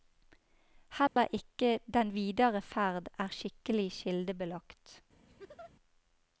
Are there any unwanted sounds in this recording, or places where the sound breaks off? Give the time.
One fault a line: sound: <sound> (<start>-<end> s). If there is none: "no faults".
sound: dropout (1.1-1.2 s)
sound: laugh (5.3-5.7 s)